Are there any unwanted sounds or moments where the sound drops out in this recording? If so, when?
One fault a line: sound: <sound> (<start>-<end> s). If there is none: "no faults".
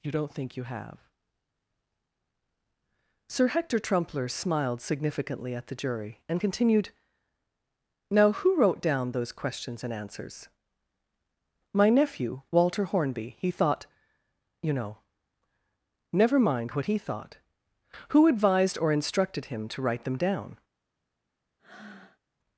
sound: breath (21.6-22.2 s)